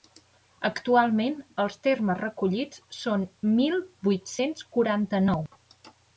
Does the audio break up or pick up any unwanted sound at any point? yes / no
no